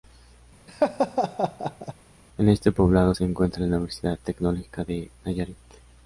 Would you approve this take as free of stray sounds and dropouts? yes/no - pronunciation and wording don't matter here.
no